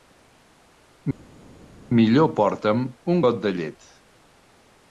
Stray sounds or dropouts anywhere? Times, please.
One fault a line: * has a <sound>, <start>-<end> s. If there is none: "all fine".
all fine